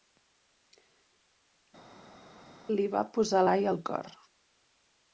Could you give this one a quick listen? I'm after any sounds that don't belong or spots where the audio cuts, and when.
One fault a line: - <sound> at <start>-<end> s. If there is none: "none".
none